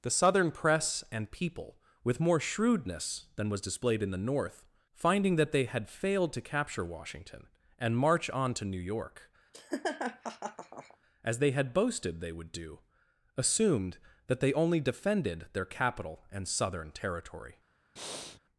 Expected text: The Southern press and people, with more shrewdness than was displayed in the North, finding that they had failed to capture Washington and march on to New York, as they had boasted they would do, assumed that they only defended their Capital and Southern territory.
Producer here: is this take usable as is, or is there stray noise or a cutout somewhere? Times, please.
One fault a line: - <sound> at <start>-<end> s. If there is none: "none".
- laugh at 9.5-11.0 s
- breath at 18.0-18.4 s